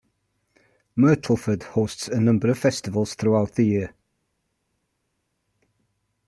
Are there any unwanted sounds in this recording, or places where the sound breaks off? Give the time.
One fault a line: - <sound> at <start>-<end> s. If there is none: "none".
none